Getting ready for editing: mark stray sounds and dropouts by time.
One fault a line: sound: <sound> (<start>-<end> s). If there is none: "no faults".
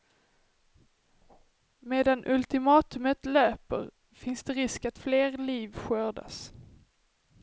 no faults